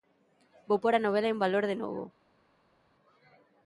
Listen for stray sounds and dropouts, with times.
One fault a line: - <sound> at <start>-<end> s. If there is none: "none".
none